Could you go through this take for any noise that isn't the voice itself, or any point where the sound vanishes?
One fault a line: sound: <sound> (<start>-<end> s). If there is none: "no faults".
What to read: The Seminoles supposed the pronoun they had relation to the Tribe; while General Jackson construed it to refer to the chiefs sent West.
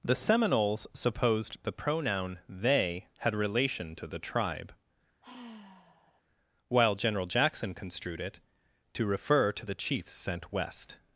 sound: sigh (5.2-6.2 s)